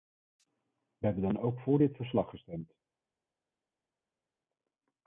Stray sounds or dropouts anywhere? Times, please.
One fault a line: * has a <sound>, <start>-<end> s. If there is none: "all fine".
all fine